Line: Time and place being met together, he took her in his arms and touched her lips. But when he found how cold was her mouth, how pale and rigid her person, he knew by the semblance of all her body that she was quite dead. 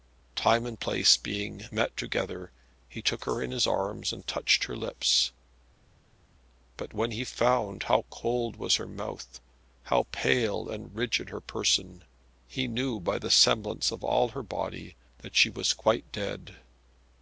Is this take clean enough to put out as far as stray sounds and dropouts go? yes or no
yes